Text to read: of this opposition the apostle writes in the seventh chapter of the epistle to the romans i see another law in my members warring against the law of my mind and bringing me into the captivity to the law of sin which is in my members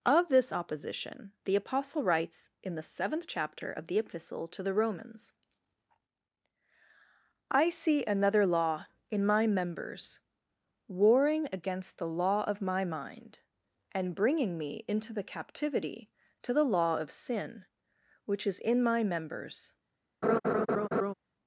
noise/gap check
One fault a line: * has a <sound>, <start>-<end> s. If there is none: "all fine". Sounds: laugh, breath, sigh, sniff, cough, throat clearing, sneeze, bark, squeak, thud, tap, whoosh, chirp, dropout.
* has a laugh, 20.2-21.1 s